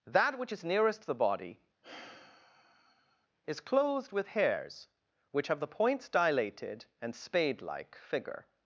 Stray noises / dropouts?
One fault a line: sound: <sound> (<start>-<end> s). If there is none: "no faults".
sound: sigh (1.8-3.3 s)